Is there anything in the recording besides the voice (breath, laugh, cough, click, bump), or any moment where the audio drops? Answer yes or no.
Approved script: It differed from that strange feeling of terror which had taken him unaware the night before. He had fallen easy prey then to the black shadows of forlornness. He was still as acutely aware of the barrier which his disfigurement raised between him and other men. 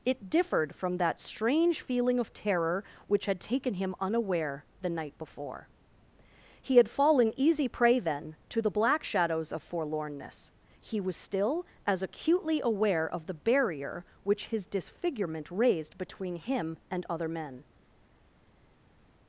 no